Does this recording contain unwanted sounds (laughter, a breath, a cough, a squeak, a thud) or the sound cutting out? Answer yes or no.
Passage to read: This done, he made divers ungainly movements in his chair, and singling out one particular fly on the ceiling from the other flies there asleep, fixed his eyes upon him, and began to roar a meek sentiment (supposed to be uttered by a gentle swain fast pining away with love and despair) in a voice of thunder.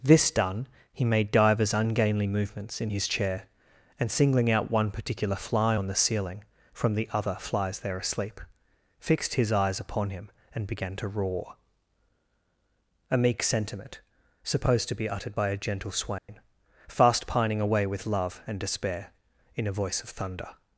yes